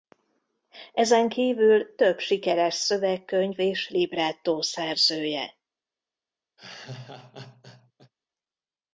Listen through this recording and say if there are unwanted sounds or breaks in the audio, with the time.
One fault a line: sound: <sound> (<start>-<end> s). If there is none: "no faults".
sound: laugh (6.6-8.1 s)